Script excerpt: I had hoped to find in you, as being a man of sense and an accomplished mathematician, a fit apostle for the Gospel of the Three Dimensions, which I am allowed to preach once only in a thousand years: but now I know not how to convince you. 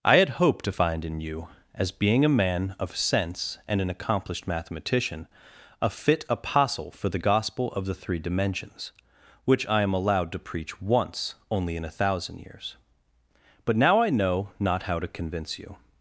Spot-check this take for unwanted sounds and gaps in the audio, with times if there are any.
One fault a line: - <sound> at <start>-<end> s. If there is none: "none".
none